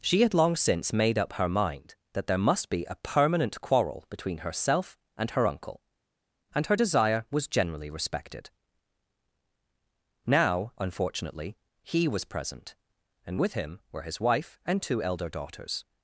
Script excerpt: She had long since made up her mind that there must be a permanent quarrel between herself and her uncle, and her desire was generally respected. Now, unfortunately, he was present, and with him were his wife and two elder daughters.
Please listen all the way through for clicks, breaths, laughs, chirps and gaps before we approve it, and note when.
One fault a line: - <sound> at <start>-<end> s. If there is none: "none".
none